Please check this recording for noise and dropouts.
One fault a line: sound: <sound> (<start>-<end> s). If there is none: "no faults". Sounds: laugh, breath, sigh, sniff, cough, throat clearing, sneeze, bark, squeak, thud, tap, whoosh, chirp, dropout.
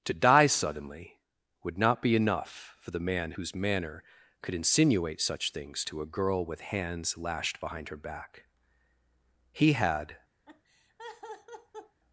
sound: laugh (10.5-12.0 s)